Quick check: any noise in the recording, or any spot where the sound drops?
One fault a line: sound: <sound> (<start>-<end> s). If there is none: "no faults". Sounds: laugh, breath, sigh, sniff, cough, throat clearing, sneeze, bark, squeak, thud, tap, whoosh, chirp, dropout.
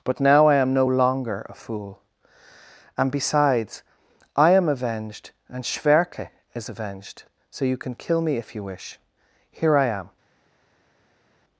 no faults